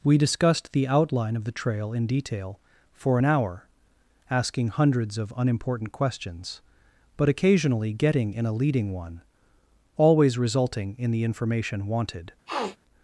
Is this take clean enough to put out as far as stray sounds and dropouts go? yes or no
no